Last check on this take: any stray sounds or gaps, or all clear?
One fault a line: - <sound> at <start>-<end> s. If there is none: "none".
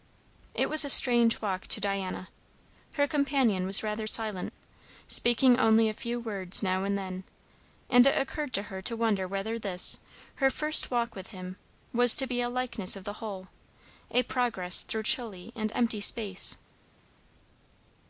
none